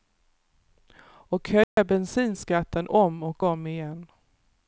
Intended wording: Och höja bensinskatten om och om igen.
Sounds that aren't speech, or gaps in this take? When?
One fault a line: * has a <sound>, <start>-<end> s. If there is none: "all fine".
* has a dropout, 1.6-1.8 s